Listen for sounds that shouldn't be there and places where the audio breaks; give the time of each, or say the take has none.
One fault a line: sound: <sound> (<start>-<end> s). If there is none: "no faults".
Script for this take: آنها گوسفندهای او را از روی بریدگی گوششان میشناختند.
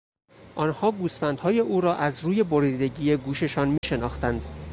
sound: dropout (3.8-3.8 s)